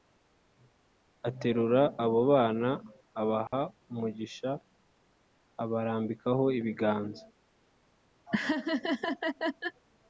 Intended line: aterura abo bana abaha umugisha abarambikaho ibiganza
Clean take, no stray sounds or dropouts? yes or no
no